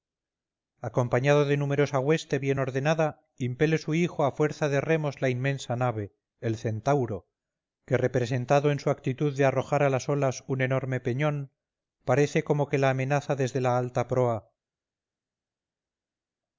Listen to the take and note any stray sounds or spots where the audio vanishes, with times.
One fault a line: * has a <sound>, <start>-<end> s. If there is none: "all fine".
all fine